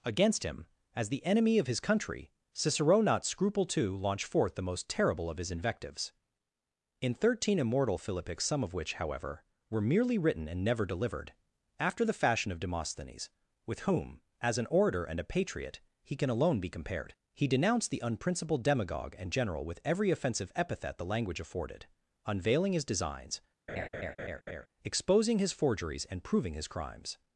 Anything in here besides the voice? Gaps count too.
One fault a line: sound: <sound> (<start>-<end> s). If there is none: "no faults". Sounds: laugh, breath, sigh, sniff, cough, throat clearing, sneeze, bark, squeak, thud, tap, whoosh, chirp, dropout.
sound: laugh (23.7-24.7 s)